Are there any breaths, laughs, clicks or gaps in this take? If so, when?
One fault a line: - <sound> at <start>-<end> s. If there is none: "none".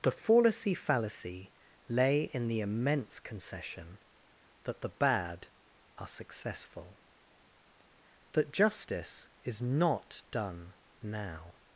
none